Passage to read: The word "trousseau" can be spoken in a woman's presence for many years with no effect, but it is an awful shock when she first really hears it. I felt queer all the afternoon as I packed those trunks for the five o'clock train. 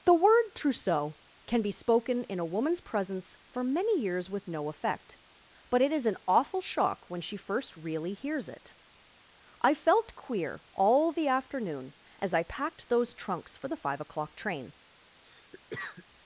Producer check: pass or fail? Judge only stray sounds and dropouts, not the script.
fail